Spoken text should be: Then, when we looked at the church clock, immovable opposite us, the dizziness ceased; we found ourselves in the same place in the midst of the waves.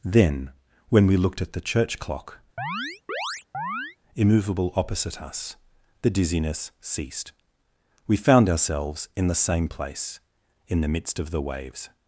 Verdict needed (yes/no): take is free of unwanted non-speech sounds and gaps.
no